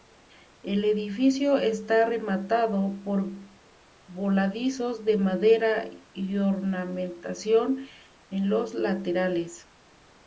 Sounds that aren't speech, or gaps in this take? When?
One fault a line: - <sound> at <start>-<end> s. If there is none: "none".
none